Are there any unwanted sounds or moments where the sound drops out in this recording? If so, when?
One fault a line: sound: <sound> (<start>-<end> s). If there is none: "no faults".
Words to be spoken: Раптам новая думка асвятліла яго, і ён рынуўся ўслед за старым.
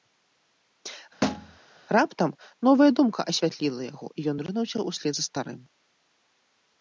sound: thud (1.2-1.6 s)